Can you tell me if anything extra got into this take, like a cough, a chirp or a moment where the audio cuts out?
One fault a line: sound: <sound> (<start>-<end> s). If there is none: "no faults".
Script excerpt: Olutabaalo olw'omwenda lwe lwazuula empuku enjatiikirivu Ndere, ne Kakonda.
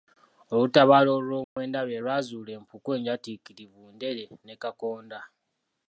sound: dropout (1.4-1.6 s)